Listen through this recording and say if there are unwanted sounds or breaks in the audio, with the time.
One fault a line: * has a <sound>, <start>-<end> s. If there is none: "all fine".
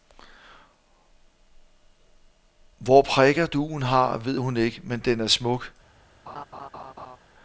* has a laugh, 6.3-7.2 s